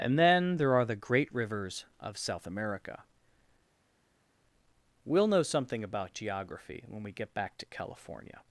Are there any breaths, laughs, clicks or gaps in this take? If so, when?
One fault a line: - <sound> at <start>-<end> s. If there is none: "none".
none